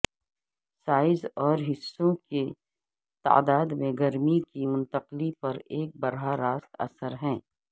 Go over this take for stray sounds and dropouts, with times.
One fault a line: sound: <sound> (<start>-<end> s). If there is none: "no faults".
no faults